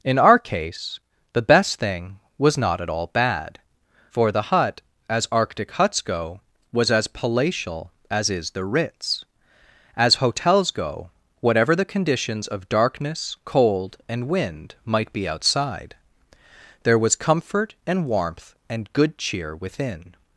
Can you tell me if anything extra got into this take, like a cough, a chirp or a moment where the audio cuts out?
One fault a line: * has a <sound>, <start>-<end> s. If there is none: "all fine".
all fine